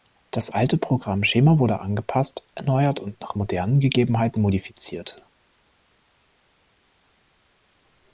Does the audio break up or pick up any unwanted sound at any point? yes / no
no